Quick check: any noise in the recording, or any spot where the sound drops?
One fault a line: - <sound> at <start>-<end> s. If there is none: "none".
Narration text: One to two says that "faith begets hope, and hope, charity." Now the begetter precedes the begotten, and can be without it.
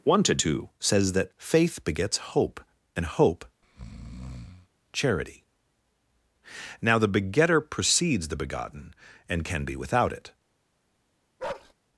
- breath at 3.6-4.7 s
- bark at 11.4-11.7 s